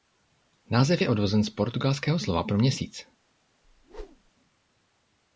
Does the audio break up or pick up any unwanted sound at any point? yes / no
yes